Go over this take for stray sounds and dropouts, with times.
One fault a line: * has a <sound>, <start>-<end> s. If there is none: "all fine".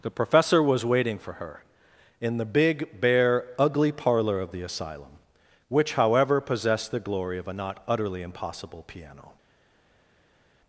all fine